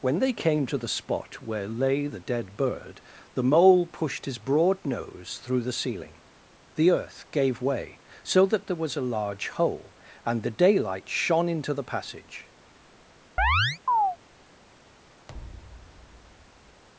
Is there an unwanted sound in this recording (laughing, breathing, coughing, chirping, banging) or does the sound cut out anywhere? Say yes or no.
yes